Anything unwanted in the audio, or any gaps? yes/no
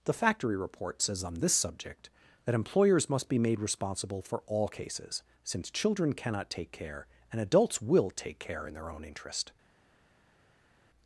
no